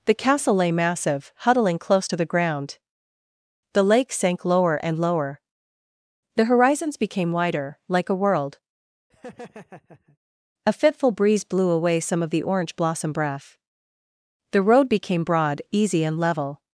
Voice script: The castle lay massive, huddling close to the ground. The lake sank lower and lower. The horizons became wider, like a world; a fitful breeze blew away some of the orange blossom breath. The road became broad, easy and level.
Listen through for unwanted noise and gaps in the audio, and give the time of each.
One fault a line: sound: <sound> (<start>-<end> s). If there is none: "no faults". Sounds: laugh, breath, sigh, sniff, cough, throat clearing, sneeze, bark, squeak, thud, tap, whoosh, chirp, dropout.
sound: laugh (9.1-10.2 s)